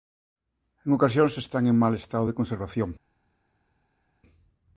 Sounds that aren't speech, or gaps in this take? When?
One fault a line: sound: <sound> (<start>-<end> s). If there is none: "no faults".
no faults